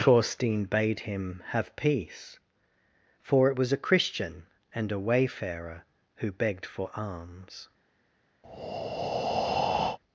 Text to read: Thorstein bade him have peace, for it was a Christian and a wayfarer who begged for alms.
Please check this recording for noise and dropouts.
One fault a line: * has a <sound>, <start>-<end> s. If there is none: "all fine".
* has a breath, 8.4-10.0 s